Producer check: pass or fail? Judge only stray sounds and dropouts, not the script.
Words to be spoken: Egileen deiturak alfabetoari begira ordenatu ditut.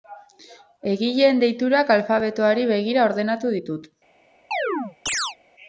fail